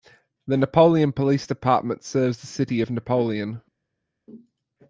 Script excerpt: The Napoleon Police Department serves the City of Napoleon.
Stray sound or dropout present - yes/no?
no